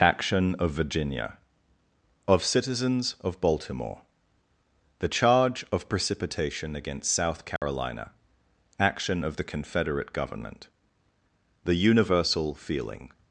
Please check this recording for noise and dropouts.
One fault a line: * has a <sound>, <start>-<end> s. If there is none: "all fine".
* has a dropout, 7.6-7.6 s